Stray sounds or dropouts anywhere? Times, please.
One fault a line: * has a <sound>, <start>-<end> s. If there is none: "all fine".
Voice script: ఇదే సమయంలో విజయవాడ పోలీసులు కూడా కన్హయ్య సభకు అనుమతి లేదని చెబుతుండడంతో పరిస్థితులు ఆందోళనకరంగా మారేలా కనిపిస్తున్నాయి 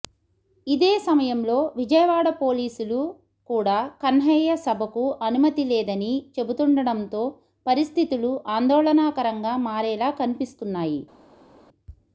all fine